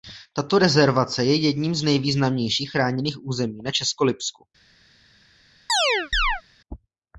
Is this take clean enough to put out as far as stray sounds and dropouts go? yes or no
no